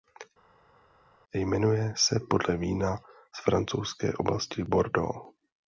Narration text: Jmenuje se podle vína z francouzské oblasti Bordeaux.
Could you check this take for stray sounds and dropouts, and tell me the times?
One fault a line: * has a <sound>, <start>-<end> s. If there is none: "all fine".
all fine